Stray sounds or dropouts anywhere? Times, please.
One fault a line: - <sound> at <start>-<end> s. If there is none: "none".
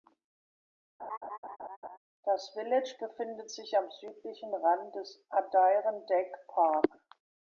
- laugh at 1.0-2.0 s